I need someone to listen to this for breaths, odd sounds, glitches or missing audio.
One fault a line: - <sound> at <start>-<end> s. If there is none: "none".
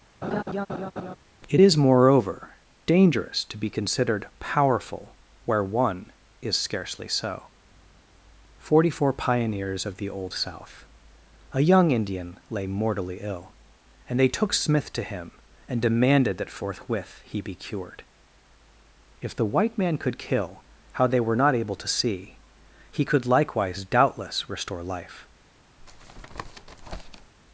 - laugh at 0.2-1.2 s
- tap at 25.8-27.3 s